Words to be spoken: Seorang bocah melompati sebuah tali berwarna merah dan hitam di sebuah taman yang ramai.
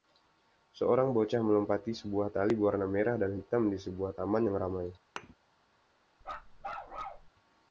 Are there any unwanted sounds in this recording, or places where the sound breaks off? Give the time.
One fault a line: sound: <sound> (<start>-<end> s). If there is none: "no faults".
sound: thud (5.2-5.3 s)
sound: bark (6.2-7.3 s)